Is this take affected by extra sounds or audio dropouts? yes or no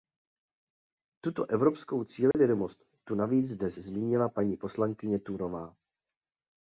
yes